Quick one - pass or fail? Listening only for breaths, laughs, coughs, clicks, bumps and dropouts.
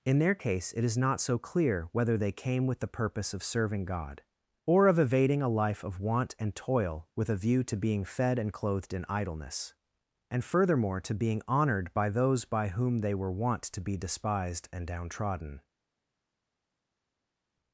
pass